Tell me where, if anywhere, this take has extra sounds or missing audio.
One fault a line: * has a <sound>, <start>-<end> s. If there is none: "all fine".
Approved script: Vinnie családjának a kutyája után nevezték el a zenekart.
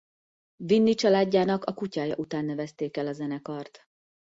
all fine